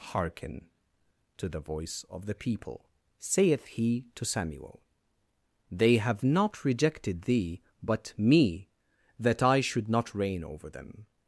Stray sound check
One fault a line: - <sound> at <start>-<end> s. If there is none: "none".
none